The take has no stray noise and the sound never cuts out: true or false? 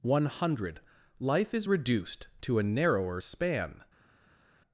true